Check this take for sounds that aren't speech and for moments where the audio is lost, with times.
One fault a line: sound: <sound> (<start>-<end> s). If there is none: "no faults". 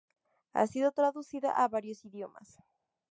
no faults